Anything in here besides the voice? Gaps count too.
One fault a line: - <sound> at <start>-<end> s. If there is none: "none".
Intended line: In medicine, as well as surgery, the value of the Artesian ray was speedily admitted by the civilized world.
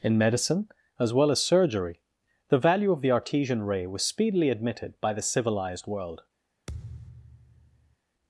- thud at 6.7-8.0 s